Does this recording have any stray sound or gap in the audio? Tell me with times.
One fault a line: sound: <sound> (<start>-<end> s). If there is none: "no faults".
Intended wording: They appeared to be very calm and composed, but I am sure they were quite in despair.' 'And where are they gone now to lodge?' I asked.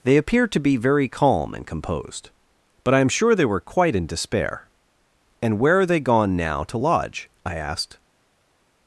no faults